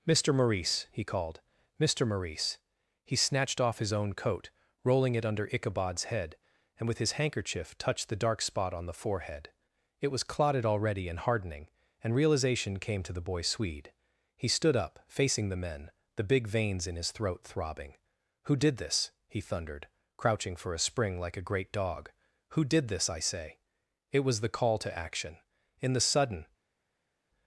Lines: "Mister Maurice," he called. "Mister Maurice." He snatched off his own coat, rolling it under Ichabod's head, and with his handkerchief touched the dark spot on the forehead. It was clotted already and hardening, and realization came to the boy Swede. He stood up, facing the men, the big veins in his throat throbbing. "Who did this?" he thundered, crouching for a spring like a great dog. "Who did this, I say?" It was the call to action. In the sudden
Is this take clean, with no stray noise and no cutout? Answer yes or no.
yes